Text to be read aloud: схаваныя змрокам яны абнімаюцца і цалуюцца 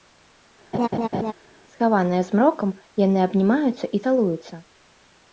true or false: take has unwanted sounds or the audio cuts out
true